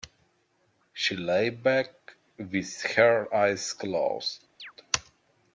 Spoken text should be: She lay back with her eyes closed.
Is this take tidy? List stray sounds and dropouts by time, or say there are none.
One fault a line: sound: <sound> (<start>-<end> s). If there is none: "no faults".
sound: chirp (4.6-4.7 s)